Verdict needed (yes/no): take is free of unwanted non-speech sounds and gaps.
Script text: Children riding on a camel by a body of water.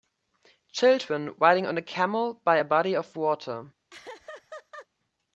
no